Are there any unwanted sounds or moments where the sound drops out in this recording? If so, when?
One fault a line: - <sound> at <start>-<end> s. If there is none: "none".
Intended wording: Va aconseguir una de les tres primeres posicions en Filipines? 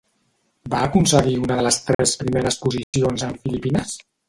- dropout at 1.9-2.0 s
- dropout at 2.8-2.9 s